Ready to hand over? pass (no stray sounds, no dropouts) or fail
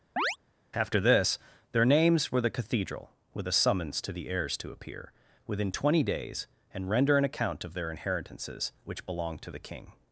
fail